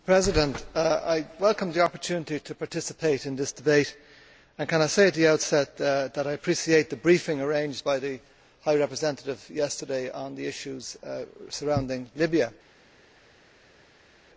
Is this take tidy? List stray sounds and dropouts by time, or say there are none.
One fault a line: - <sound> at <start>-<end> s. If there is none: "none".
none